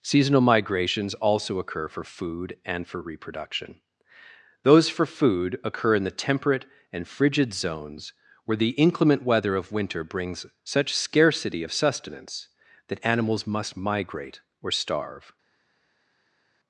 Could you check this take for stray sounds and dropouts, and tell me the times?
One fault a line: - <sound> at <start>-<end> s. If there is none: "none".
none